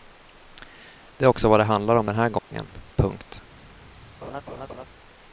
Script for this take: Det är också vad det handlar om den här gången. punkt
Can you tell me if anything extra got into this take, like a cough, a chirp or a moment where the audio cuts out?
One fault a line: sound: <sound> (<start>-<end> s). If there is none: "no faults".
sound: dropout (2.4-2.5 s)
sound: laugh (4.2-4.9 s)